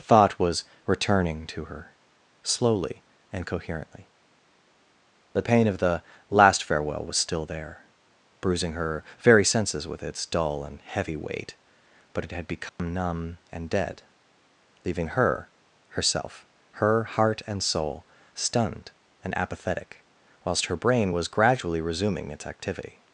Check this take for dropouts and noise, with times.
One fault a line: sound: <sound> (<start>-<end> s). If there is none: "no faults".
sound: dropout (12.7-12.8 s)